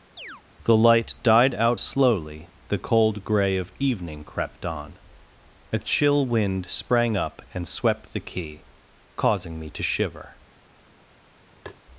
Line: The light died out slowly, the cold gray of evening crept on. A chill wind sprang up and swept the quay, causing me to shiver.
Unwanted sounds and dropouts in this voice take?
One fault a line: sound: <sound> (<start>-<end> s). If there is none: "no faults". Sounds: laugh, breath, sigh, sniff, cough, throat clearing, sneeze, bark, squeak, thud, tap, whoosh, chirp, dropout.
sound: chirp (0.2-0.4 s)
sound: tap (11.7-11.8 s)